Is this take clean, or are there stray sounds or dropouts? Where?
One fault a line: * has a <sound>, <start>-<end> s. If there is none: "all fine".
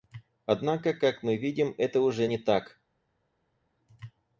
all fine